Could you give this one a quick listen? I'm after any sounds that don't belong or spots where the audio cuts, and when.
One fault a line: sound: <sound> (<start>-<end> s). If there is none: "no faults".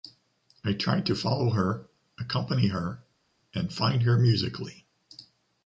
no faults